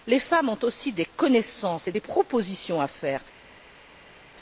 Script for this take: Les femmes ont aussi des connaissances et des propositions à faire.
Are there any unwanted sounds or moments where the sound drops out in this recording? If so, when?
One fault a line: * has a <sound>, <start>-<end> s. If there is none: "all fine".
all fine